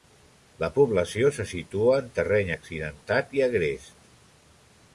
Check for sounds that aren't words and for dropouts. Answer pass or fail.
pass